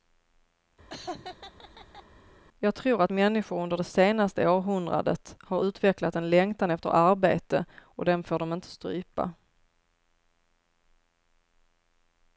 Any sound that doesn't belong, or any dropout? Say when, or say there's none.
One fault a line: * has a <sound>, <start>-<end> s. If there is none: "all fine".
* has a laugh, 0.9-2.0 s